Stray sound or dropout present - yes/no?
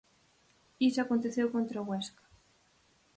no